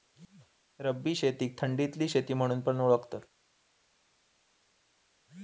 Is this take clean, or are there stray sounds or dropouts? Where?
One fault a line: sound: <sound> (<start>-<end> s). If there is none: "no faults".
no faults